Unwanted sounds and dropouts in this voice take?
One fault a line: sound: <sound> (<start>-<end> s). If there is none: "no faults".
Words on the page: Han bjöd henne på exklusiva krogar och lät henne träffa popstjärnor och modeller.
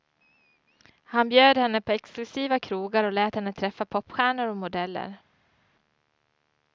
no faults